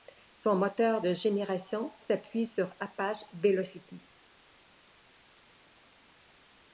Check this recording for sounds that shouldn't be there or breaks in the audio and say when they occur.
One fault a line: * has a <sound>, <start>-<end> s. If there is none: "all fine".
all fine